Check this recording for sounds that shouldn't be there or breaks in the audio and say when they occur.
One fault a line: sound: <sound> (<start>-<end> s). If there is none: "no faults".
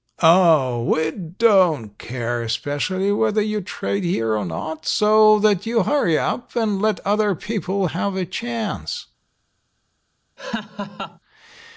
sound: laugh (10.4-11.2 s)